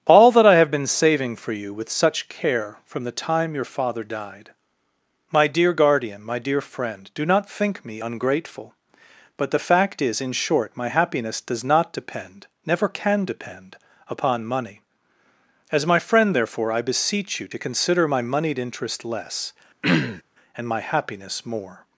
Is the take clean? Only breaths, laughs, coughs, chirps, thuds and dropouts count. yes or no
no